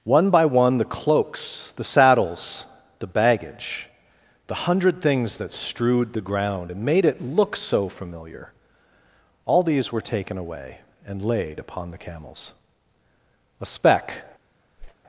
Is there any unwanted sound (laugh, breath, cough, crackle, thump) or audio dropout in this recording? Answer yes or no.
yes